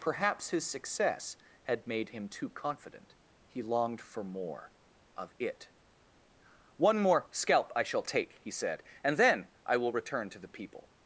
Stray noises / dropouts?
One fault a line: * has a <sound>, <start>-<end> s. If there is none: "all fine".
all fine